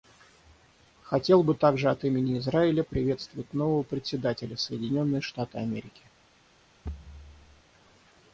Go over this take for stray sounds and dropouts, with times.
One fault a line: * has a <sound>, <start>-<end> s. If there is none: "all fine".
* has a thud, 6.8-7.6 s